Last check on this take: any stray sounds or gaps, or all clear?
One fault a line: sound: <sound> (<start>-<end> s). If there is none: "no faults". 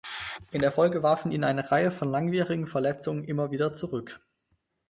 no faults